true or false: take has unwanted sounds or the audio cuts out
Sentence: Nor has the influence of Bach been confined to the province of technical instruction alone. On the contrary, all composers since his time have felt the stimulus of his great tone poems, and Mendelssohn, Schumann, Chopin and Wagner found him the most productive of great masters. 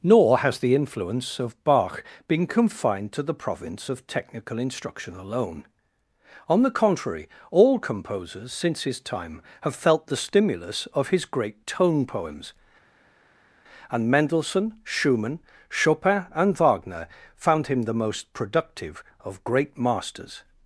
false